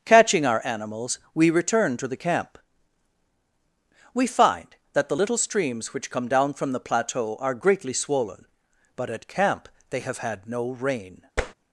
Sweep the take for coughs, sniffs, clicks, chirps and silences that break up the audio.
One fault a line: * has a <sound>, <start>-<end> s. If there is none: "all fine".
* has a tap, 11.4-11.5 s